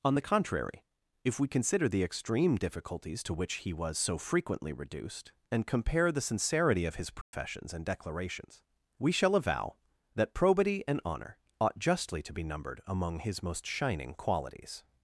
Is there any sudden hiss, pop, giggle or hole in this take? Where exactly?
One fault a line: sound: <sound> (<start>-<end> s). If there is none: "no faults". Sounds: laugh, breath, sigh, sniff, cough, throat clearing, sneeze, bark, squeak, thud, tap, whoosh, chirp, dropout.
sound: dropout (7.2-7.3 s)